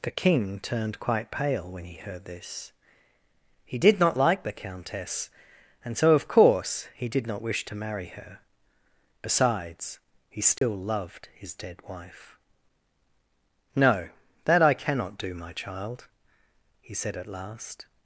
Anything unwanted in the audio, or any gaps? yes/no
yes